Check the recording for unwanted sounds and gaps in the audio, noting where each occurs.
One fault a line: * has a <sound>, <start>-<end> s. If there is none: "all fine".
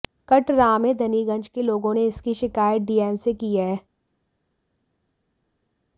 all fine